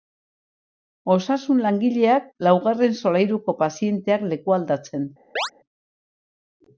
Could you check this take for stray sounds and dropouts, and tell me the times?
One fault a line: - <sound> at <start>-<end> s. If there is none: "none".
- chirp at 5.4-5.5 s